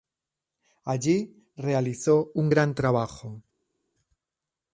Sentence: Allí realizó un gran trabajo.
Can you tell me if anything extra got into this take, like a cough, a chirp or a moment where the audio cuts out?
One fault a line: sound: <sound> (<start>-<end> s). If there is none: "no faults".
no faults